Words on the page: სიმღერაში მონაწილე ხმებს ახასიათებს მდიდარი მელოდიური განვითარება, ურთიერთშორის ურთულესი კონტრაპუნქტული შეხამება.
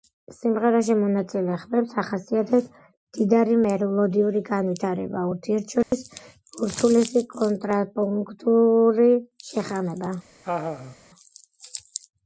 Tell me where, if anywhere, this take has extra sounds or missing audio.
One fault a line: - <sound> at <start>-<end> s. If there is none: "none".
- dropout at 5.8-5.9 s
- laugh at 10.4-11.0 s